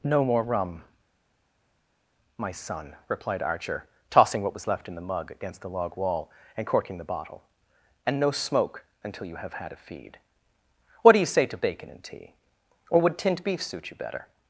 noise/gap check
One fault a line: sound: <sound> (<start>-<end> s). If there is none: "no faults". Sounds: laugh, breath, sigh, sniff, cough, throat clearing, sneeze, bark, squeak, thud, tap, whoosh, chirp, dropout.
no faults